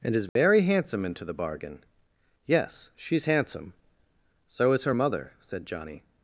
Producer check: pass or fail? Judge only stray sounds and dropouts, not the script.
fail